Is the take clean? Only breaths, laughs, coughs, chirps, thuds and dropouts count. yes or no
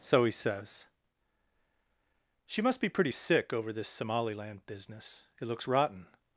yes